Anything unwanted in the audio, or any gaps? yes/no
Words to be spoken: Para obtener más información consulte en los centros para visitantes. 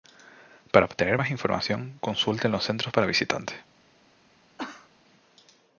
yes